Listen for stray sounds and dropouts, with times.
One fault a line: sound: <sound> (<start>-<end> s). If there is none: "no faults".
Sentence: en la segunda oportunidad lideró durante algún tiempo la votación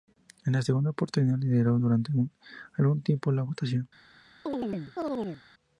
sound: chirp (4.5-5.4 s)